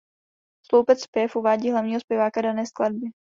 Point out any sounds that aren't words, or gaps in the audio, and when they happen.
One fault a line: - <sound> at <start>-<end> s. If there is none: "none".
none